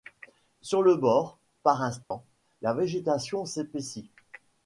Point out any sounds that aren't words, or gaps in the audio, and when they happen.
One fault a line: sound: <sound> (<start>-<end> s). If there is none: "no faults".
sound: dropout (2.0-2.1 s)